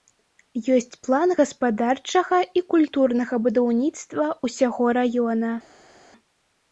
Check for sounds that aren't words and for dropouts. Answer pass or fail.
pass